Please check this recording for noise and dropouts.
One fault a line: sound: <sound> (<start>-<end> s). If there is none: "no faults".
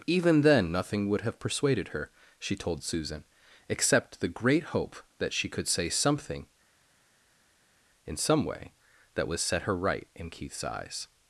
no faults